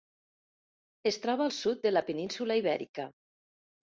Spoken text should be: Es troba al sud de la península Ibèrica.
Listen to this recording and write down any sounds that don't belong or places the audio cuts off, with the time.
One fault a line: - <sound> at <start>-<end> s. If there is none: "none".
none